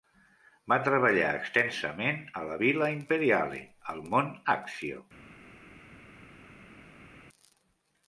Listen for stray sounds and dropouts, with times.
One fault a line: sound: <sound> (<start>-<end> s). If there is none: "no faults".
no faults